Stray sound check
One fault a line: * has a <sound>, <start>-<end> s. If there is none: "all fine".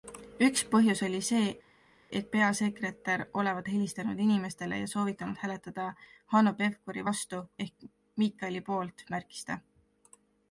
all fine